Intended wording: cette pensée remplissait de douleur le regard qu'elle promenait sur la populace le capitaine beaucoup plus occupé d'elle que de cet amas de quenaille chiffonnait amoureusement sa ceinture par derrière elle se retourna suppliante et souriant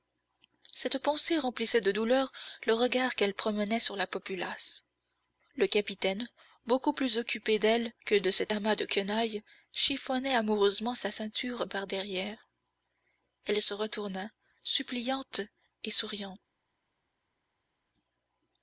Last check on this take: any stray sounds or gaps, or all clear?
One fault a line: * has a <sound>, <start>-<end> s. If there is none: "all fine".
all fine